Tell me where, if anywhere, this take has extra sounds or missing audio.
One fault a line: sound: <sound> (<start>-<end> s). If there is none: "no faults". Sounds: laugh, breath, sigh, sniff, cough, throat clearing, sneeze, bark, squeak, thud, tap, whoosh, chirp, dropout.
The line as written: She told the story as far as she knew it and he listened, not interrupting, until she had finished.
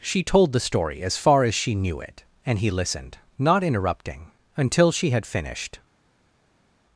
no faults